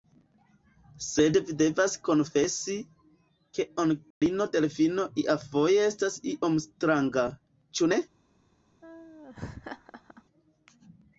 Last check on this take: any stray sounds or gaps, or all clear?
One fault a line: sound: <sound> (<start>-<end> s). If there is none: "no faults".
sound: dropout (4.1-4.2 s)
sound: laugh (8.8-10.2 s)